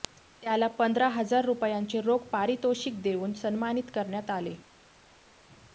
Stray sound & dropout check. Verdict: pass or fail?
pass